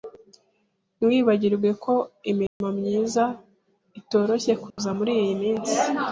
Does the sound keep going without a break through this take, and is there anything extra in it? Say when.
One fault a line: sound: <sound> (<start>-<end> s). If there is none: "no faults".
sound: dropout (2.5-2.6 s)
sound: dropout (4.7-4.8 s)